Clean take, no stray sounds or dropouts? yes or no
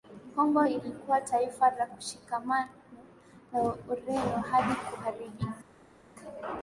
yes